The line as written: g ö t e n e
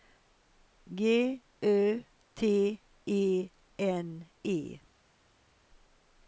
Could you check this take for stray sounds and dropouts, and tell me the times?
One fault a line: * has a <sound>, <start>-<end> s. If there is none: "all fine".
all fine